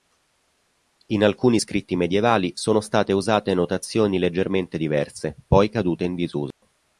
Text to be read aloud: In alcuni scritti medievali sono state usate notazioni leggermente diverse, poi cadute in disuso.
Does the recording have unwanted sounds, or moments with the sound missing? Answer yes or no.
yes